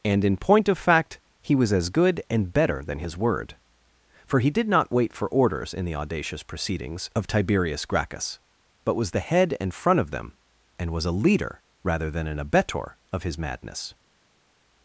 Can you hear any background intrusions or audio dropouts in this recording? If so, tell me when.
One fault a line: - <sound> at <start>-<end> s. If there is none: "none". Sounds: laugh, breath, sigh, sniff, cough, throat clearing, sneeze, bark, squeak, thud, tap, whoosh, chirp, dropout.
none